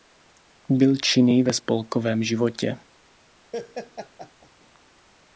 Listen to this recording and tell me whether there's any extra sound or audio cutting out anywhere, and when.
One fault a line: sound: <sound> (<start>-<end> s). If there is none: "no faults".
sound: laugh (3.5-4.5 s)